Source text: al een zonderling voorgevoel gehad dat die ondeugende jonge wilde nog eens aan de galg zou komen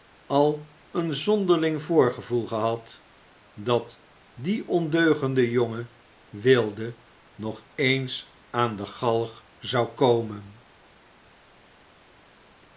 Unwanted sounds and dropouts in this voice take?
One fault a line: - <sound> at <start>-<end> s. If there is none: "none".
none